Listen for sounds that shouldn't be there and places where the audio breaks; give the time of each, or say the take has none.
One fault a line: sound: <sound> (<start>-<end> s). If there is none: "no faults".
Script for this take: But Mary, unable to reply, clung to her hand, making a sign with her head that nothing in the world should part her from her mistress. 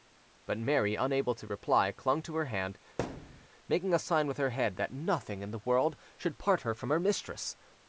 sound: thud (3.0-3.5 s)